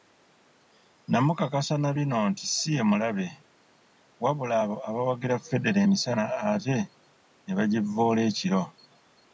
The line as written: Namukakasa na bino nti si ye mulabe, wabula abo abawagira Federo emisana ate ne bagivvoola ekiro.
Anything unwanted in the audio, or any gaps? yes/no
no